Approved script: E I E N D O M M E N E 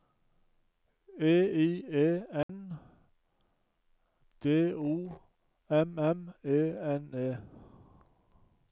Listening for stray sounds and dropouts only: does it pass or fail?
fail